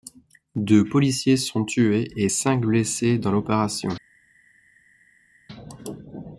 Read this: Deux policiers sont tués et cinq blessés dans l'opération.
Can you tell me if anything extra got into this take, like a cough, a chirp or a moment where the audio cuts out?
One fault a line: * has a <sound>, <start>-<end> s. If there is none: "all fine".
all fine